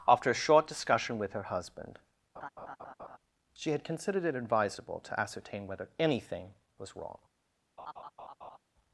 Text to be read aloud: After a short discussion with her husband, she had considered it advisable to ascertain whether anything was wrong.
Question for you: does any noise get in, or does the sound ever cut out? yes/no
yes